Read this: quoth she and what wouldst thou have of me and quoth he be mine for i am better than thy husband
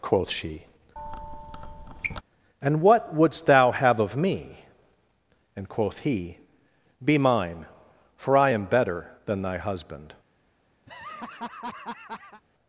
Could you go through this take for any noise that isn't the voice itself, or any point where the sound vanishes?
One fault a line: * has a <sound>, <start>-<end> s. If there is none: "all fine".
* has a squeak, 1.0-2.2 s
* has a laugh, 10.9-12.4 s